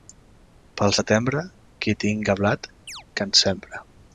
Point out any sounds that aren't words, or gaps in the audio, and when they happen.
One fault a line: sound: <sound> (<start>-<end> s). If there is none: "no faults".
sound: chirp (2.9-3.0 s)